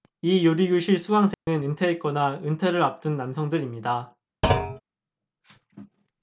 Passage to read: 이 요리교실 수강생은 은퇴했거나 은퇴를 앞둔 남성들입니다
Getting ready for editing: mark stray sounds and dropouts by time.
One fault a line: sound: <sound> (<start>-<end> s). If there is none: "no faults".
sound: dropout (1.3-1.5 s)
sound: thud (4.4-4.8 s)